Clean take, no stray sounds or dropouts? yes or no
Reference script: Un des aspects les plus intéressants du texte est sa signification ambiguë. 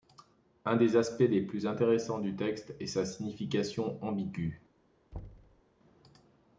no